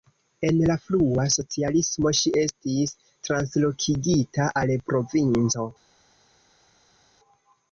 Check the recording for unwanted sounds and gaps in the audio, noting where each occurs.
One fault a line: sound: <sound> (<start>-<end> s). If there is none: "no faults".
no faults